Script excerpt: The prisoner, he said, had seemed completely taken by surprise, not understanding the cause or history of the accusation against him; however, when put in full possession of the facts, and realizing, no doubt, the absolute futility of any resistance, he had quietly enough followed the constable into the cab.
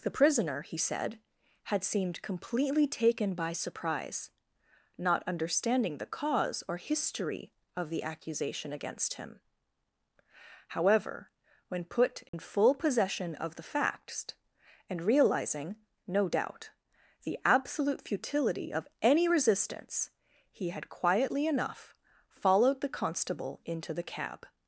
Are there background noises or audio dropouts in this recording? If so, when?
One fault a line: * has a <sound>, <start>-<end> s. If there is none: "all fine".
* has a dropout, 12.3-12.3 s